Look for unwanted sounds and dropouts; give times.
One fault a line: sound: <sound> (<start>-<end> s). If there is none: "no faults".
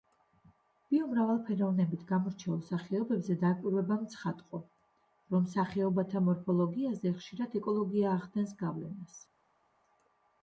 no faults